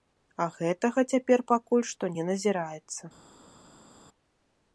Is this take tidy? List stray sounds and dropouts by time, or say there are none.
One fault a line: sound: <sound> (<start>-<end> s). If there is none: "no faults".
no faults